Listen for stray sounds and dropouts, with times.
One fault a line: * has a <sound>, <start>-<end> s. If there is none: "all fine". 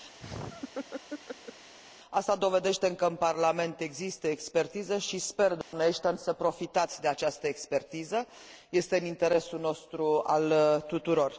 * has a laugh, 0.2-1.7 s
* has a dropout, 5.6-5.7 s